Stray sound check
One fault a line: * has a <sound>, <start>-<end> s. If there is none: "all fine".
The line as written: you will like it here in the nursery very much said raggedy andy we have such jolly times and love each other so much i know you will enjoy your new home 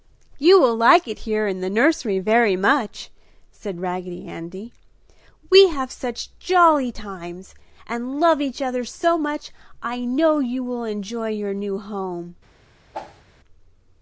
* has a whoosh, 12.9-13.2 s